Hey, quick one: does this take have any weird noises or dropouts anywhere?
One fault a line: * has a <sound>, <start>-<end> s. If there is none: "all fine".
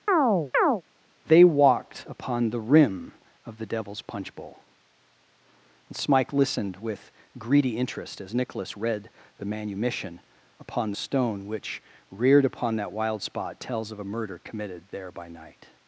* has a chirp, 0.1-0.8 s